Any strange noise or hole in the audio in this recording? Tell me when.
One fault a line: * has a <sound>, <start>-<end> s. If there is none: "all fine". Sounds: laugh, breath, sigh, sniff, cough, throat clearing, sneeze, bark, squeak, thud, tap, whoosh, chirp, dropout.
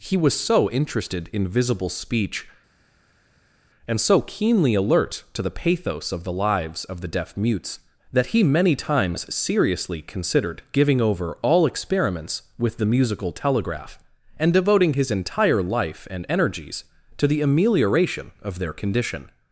all fine